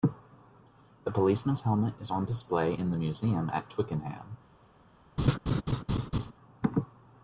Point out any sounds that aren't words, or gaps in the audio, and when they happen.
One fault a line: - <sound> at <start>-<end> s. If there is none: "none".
- laugh at 5.2-6.3 s